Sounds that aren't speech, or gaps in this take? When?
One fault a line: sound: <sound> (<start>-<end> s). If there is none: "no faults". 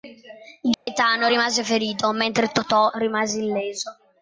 sound: dropout (0.7-0.9 s)